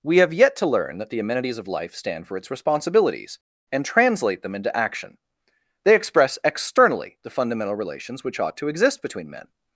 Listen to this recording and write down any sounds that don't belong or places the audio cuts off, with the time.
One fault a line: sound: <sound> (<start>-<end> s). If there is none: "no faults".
no faults